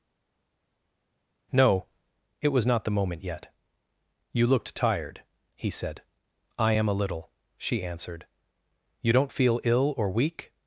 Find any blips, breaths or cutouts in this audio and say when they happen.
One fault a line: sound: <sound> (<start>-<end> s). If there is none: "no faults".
no faults